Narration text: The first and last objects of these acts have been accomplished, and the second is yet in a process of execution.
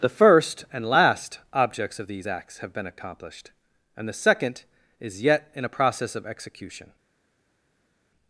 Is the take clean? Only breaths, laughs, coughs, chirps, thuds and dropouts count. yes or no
yes